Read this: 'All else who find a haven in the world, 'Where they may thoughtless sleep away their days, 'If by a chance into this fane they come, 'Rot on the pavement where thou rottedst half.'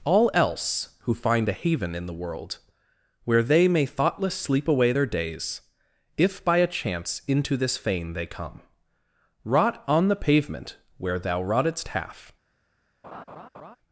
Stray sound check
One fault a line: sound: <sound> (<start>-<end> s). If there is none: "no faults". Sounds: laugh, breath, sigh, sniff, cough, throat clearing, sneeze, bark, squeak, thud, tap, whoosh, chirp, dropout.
sound: laugh (13.0-13.8 s)